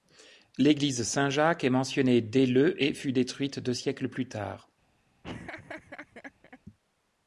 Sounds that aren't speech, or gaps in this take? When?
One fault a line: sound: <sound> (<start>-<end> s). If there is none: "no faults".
sound: laugh (5.2-6.6 s)